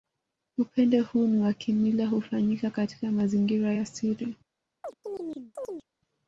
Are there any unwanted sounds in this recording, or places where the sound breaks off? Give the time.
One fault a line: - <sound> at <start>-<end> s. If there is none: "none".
- chirp at 4.8-5.9 s